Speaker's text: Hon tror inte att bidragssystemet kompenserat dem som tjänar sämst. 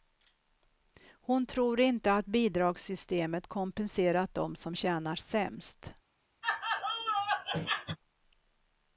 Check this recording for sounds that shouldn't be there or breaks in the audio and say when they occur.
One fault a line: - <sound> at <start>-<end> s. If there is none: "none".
- laugh at 6.4-8.0 s